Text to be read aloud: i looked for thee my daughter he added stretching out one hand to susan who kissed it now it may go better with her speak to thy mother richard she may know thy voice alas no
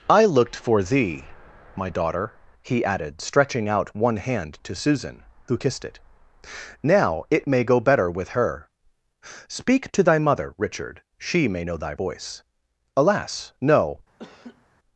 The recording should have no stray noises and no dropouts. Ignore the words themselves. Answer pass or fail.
fail